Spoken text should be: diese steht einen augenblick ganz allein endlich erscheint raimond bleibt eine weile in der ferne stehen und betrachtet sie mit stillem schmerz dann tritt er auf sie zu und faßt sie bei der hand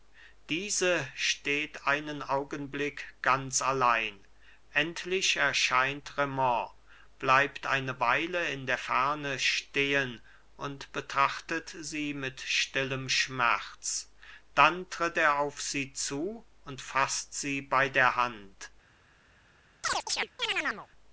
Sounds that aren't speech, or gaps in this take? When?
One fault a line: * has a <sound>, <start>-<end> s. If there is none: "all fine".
* has a chirp, 19.8-20.9 s